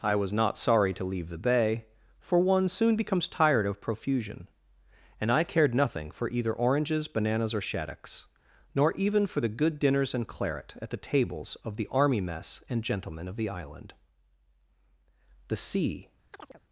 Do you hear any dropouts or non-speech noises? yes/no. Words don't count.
yes